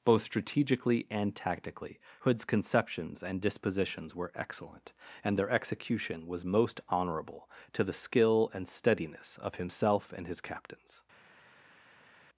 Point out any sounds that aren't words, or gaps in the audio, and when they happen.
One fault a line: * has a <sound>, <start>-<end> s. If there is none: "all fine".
all fine